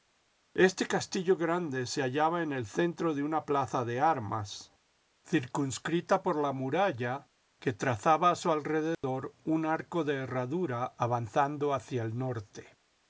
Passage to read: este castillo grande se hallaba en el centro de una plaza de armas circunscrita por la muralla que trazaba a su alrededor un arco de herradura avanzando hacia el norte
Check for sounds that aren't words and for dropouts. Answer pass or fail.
fail